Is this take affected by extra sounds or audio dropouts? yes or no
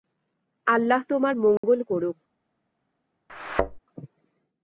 yes